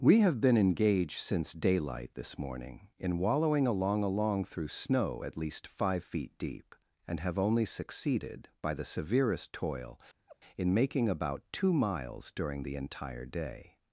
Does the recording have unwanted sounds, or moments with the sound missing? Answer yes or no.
yes